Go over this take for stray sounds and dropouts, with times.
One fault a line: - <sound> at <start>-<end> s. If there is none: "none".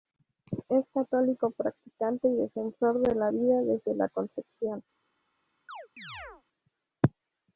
- chirp at 5.7-6.4 s